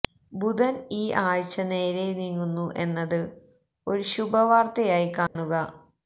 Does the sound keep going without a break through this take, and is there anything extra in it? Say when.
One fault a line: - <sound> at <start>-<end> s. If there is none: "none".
- dropout at 5.3-5.4 s